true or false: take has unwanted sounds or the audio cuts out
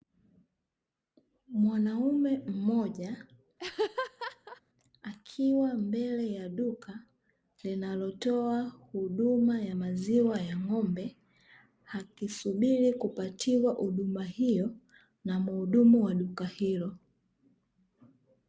true